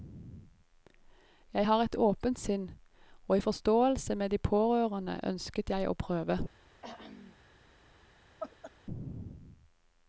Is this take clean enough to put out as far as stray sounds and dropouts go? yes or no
no